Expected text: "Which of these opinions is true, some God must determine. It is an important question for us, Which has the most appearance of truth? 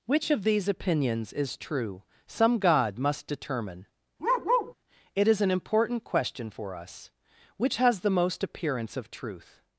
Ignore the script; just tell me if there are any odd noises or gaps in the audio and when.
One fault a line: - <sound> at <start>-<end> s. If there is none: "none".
- bark at 4.2-4.7 s